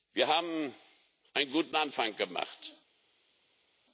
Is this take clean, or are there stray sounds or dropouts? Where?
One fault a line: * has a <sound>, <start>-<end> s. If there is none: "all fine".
all fine